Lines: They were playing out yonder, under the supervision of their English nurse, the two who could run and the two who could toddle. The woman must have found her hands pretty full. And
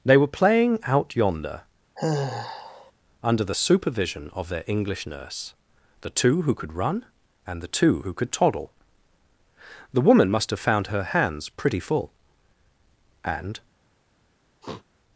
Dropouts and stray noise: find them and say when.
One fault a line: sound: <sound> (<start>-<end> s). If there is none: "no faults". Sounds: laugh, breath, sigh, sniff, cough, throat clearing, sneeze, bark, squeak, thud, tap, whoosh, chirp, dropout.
sound: sigh (2.0-2.9 s)
sound: sniff (14.6-14.8 s)